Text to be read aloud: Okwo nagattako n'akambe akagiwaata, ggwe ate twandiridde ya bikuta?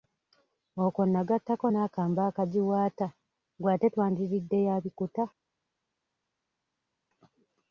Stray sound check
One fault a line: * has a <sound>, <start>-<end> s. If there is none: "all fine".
all fine